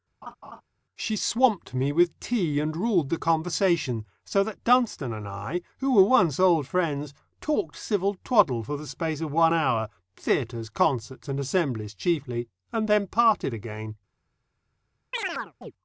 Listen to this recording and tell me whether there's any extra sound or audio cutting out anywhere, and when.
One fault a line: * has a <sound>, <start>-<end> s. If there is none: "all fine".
* has a laugh, 0.2-0.6 s
* has a chirp, 15.1-15.7 s